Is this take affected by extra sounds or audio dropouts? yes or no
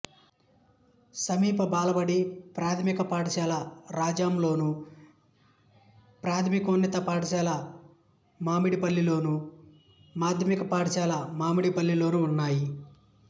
no